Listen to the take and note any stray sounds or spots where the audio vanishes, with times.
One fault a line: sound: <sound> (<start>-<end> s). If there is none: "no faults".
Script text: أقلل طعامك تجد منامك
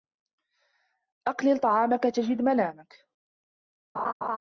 sound: laugh (3.9-4.4 s)